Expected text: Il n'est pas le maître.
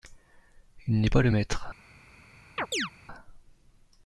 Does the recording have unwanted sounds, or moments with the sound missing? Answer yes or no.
yes